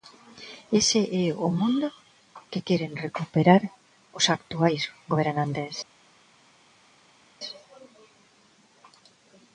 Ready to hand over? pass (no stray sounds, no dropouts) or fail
pass